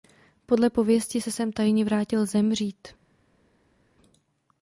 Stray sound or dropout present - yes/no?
no